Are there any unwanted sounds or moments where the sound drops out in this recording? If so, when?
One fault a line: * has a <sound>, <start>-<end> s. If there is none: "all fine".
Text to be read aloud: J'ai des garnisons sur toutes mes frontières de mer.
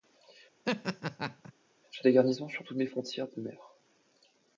* has a laugh, 0.7-1.5 s